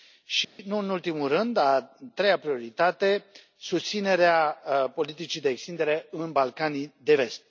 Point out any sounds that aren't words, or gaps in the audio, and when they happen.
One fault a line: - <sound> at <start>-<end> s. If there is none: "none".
- dropout at 0.4-0.6 s